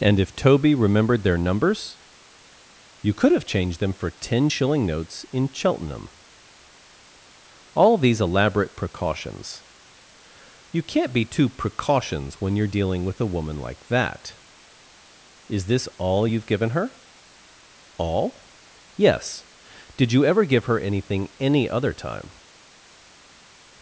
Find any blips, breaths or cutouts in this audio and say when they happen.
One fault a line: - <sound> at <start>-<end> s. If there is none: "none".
none